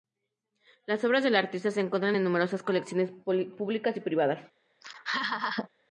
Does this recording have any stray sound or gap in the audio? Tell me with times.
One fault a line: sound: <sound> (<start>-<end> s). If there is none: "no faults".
sound: laugh (4.8-5.7 s)